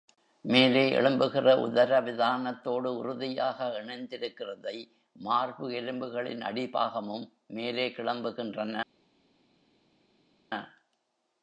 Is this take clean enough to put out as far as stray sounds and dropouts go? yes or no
yes